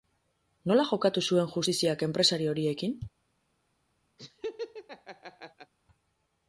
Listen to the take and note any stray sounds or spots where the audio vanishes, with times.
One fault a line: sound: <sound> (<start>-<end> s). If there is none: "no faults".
sound: laugh (4.2-5.7 s)